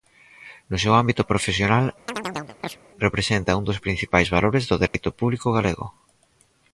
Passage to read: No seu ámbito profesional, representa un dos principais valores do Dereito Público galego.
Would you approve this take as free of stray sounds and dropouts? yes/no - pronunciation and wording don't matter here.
no